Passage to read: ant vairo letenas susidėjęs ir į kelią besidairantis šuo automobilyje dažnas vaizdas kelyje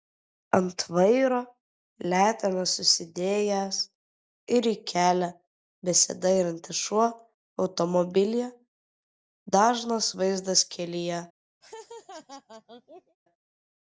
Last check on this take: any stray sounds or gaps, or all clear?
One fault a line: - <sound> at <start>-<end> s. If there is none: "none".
- laugh at 11.6-13.2 s